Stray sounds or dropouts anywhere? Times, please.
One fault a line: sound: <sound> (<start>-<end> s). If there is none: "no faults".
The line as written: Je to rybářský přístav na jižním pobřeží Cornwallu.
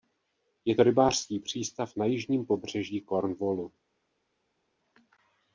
no faults